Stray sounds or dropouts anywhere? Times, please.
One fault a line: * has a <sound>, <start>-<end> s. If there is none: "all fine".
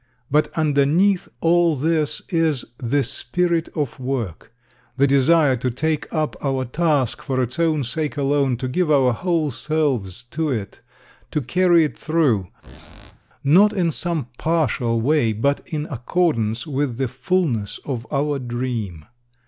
* has a squeak, 12.6-13.2 s